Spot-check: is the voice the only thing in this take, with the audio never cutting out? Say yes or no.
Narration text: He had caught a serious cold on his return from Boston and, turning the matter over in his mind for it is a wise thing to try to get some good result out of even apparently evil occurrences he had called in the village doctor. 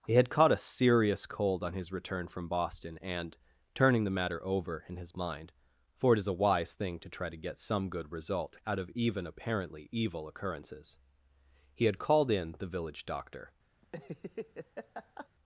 no